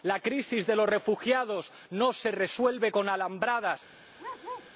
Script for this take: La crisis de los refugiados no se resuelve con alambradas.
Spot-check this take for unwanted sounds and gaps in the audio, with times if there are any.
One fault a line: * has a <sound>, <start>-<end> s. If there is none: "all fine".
* has a bark, 4.2-4.7 s